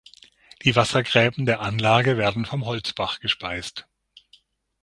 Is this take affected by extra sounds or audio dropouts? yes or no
no